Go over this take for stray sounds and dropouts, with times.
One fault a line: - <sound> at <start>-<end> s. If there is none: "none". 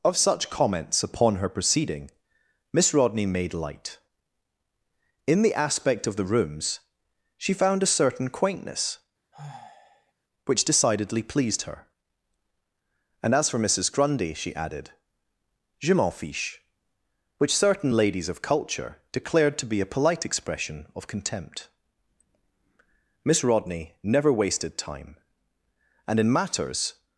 - sigh at 9.3-10.1 s